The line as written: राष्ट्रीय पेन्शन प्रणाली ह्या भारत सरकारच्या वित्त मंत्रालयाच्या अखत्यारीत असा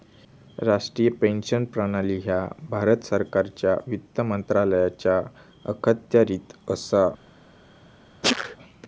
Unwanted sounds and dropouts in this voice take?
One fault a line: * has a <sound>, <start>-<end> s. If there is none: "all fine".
* has a sneeze, 8.2-8.6 s